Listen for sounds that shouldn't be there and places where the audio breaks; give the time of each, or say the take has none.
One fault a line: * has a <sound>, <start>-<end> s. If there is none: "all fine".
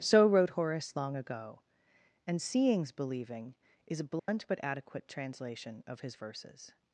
* has a dropout, 4.2-4.3 s